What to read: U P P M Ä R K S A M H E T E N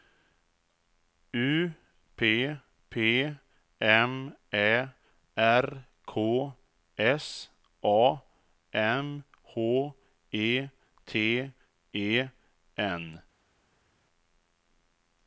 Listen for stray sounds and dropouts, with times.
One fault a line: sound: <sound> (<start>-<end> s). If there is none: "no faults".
no faults